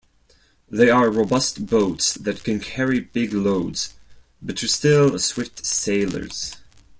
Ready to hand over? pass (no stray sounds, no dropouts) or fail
pass